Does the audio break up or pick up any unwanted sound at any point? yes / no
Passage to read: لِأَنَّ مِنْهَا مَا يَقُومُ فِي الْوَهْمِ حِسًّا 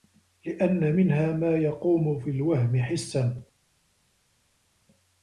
no